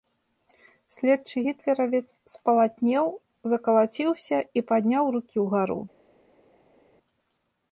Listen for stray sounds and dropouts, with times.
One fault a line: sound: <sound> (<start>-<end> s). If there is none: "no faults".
no faults